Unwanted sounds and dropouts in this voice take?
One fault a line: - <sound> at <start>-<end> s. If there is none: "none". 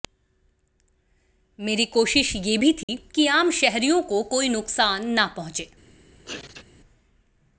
- dropout at 2.8-2.9 s
- sneeze at 6.2-6.6 s